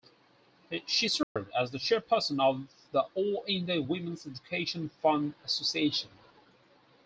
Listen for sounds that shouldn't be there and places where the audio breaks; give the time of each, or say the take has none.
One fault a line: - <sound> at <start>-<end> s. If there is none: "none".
- dropout at 1.2-1.4 s